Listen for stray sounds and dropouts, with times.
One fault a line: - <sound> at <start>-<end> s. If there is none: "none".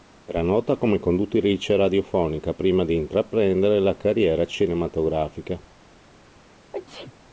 - sneeze at 6.7-7.1 s